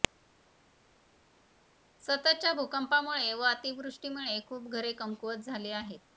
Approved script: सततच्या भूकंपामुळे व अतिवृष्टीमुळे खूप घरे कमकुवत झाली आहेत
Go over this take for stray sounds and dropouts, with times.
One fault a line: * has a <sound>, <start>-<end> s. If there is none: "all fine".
all fine